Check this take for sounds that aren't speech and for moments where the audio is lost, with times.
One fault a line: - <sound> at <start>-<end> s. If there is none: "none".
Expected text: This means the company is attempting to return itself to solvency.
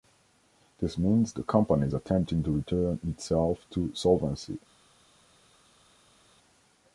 none